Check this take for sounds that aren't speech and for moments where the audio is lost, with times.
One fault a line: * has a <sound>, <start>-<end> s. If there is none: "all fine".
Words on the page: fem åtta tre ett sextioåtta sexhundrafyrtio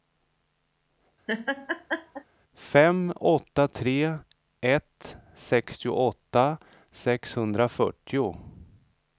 * has a laugh, 1.3-2.2 s